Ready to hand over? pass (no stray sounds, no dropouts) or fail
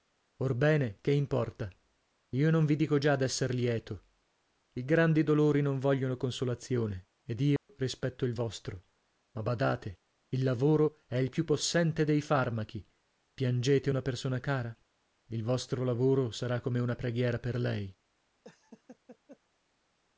fail